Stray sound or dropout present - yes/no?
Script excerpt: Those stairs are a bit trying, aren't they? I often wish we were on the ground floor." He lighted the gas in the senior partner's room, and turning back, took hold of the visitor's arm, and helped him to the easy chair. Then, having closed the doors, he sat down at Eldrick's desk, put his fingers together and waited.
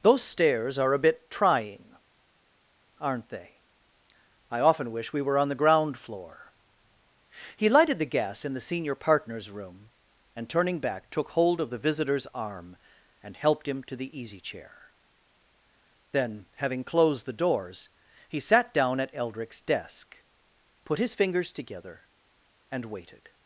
no